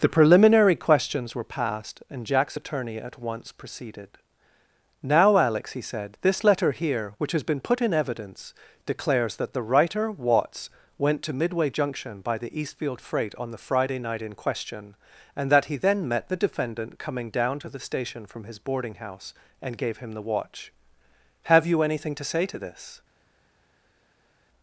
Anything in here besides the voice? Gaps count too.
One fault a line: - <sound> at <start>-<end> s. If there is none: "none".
none